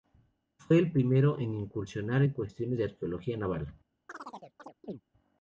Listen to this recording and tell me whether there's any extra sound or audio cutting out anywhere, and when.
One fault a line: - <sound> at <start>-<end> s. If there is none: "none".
- chirp at 4.1-5.0 s